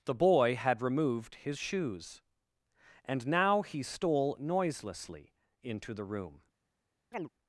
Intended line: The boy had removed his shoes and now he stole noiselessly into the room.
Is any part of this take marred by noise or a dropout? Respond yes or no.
yes